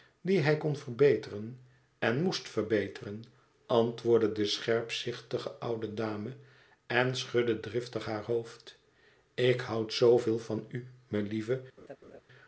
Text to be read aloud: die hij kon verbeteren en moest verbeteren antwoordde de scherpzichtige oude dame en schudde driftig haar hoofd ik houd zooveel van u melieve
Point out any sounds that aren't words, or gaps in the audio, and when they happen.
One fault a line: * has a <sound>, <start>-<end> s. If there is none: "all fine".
* has a laugh, 11.8-12.2 s